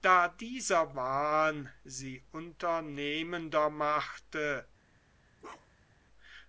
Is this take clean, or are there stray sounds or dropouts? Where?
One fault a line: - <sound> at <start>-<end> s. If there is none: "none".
- bark at 5.4-6.0 s